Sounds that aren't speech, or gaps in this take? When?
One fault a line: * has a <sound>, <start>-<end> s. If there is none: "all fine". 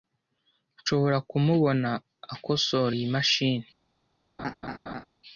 * has a laugh, 4.4-5.0 s